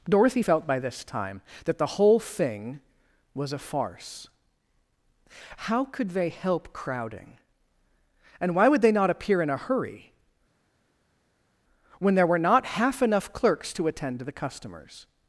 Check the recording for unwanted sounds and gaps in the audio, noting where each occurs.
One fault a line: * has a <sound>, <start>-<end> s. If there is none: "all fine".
all fine